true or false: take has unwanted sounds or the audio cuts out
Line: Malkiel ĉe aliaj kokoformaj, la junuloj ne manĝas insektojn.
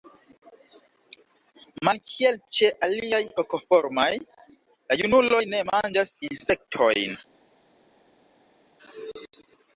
false